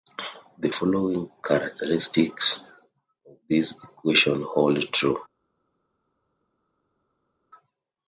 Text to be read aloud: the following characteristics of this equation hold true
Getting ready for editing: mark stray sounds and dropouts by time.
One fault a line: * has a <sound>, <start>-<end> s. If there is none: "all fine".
all fine